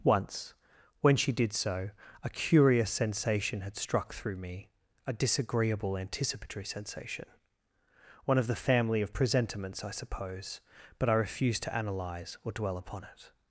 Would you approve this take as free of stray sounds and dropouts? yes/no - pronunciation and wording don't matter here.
yes